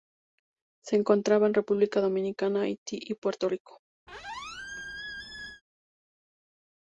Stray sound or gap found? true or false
true